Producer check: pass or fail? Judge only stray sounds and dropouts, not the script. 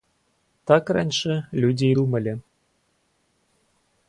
pass